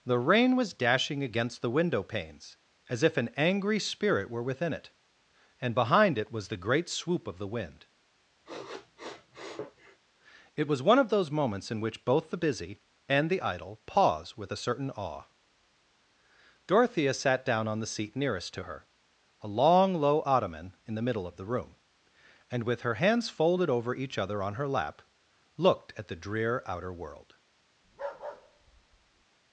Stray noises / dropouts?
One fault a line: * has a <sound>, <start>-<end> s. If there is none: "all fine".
* has a sniff, 8.4-10.0 s
* has a bark, 27.8-29.3 s